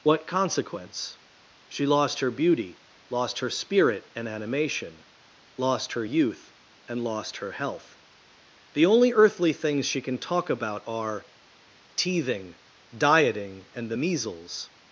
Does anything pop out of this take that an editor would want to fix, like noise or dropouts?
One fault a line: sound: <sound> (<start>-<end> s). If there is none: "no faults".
no faults